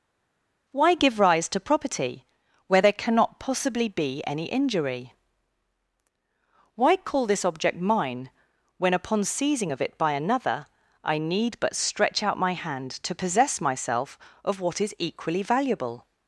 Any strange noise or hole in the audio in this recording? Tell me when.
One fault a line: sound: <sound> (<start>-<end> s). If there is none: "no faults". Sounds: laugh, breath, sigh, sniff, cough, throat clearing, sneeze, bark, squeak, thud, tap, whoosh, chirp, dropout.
no faults